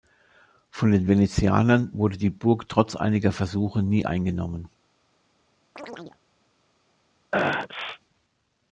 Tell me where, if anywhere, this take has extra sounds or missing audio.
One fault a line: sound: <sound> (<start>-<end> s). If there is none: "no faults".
sound: chirp (5.8-6.2 s)
sound: sneeze (7.3-8.0 s)